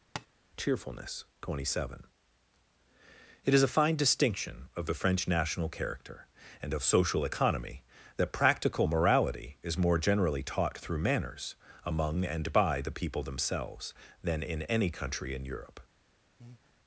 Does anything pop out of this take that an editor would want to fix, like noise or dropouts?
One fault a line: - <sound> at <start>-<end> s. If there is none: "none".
- tap at 0.2-0.3 s
- breath at 16.4-16.7 s